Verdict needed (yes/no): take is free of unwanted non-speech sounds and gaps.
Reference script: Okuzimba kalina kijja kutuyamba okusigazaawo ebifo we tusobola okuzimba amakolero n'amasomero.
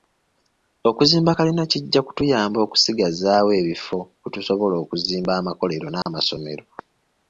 no